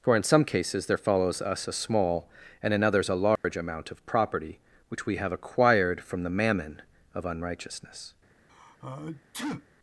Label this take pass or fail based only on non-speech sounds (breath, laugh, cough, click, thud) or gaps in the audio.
fail